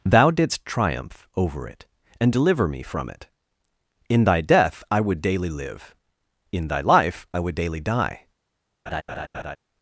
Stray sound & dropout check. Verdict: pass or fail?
fail